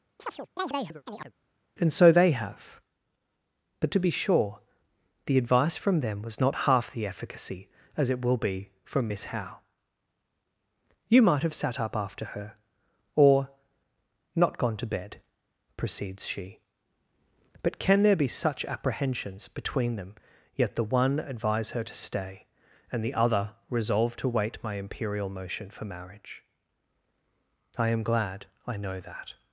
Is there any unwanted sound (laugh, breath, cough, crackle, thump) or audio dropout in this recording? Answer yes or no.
yes